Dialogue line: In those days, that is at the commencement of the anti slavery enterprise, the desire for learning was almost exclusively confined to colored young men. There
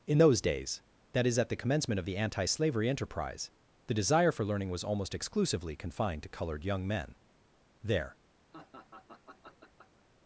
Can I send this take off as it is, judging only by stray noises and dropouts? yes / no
no